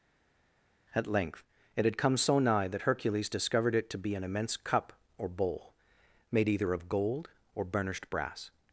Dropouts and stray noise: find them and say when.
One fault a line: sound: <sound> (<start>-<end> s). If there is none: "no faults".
no faults